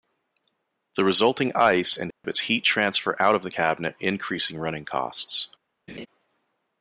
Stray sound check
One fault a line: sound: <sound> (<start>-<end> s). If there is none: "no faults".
sound: dropout (2.1-2.2 s)
sound: laugh (5.9-6.1 s)